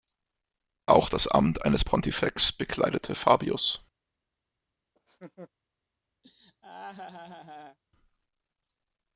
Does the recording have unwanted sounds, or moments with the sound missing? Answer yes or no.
yes